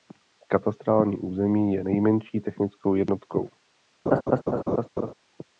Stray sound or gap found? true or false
true